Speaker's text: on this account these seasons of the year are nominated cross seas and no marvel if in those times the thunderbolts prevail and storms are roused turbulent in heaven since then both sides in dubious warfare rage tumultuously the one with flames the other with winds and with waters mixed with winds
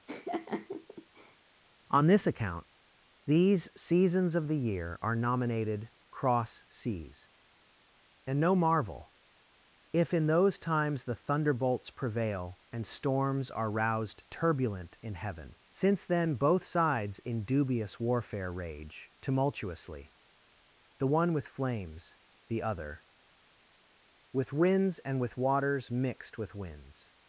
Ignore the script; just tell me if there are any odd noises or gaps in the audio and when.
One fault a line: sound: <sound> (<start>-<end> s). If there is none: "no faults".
sound: laugh (0.1-1.4 s)